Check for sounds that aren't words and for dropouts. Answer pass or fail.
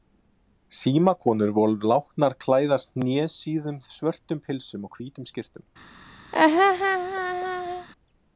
fail